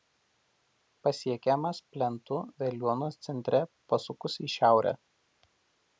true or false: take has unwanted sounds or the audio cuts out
false